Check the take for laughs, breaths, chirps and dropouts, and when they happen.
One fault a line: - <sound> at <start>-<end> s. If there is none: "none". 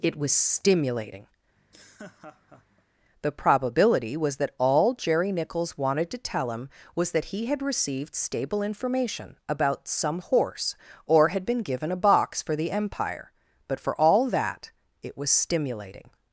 - laugh at 1.6-2.8 s